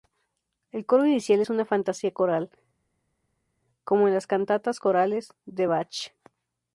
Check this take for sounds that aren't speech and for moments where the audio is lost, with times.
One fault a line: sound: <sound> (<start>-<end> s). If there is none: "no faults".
no faults